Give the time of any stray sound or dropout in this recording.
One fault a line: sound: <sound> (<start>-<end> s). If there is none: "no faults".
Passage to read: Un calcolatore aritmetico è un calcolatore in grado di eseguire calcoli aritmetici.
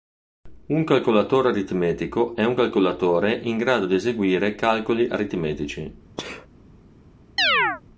sound: sneeze (6.2-6.5 s)
sound: chirp (7.4-7.8 s)